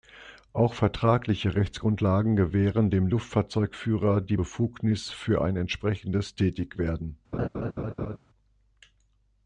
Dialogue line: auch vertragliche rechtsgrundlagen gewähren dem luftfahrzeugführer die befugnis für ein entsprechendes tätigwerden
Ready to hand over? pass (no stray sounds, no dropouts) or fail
fail